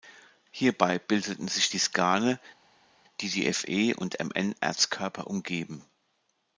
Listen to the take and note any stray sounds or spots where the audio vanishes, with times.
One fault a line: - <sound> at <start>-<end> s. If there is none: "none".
none